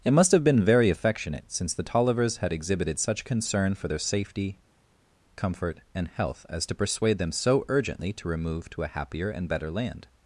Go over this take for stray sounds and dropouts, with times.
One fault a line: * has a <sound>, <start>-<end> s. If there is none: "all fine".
all fine